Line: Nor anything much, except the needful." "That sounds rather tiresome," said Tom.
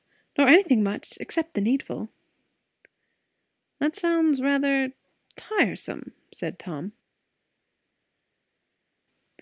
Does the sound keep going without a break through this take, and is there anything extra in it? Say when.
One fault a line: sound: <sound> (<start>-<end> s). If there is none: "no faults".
no faults